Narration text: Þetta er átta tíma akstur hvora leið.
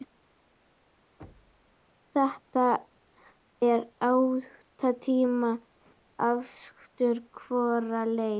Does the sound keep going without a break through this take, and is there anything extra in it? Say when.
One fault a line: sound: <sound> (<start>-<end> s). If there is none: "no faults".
sound: thud (1.2-1.8 s)